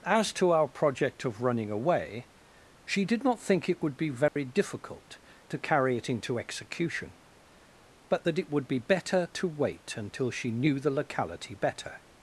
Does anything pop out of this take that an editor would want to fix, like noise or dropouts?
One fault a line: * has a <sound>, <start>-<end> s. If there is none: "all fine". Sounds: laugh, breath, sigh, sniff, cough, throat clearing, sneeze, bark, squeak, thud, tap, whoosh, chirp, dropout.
* has a dropout, 4.3-4.4 s